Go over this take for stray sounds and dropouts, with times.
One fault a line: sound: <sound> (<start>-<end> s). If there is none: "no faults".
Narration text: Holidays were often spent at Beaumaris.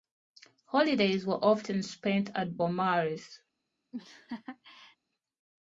sound: laugh (3.9-5.0 s)